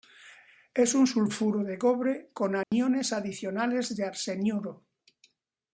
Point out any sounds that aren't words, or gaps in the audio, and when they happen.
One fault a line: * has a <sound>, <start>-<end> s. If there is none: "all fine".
* has a dropout, 2.6-2.7 s